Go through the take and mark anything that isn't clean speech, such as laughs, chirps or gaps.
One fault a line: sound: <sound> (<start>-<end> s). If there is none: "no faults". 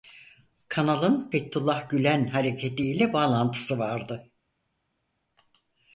no faults